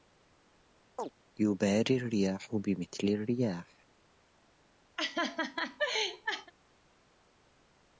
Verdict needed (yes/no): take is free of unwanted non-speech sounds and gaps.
no